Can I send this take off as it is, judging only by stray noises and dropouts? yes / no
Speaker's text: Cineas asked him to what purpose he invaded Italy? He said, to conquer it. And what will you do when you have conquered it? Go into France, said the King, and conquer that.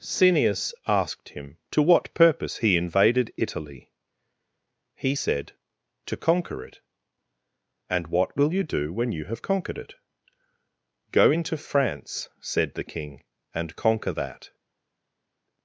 yes